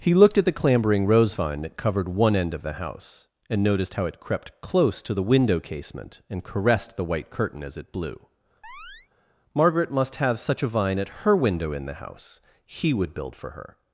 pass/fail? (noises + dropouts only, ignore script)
fail